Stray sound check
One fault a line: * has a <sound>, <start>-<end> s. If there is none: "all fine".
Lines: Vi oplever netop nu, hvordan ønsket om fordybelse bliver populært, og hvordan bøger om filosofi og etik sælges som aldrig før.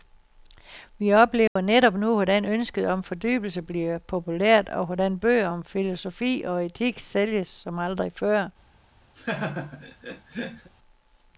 * has a dropout, 1.5-1.6 s
* has a laugh, 9.2-10.7 s